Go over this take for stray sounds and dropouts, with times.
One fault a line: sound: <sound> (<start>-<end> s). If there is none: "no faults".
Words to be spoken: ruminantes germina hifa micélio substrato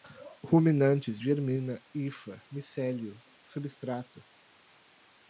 no faults